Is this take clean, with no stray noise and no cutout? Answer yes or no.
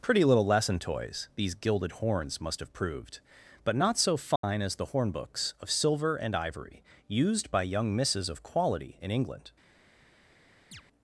no